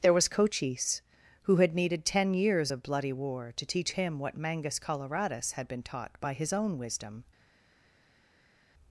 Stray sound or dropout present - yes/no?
no